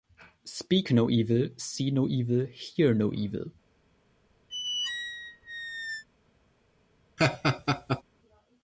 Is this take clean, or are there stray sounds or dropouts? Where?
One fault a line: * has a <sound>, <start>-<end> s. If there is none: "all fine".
* has a squeak, 4.5-6.0 s
* has a laugh, 7.2-8.0 s